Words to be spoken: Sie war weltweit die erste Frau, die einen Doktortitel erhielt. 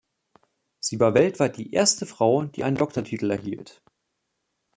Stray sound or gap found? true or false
false